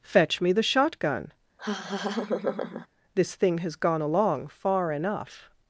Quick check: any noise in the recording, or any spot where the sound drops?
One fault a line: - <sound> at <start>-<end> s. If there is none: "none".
- laugh at 1.6-2.9 s